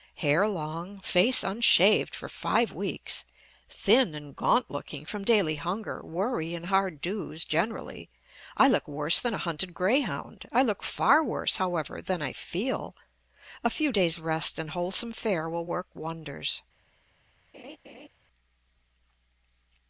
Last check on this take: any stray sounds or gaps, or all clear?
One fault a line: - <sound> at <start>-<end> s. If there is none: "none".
- laugh at 17.5-18.1 s